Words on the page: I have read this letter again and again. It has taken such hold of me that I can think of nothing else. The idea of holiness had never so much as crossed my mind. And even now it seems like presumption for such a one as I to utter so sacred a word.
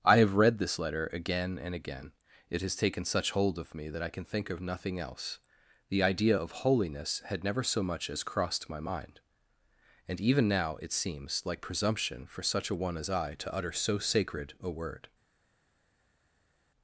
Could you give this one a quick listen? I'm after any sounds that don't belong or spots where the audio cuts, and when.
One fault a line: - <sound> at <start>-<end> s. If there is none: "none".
none